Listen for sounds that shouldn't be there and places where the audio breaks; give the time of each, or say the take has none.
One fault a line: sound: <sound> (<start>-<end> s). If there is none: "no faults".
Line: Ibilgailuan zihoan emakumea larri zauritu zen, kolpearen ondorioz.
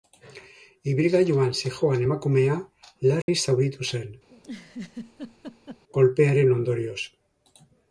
sound: dropout (3.2-3.3 s)
sound: laugh (4.3-5.8 s)